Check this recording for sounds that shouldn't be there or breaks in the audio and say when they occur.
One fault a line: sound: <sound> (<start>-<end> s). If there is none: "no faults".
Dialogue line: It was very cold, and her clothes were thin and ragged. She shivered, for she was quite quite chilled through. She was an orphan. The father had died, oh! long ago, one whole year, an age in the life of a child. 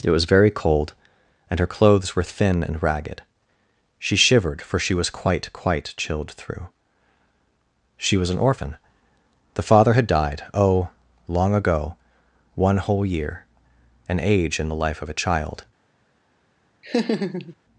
sound: laugh (16.8-17.6 s)